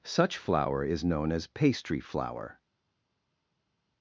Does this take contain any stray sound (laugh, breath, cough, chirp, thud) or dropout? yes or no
no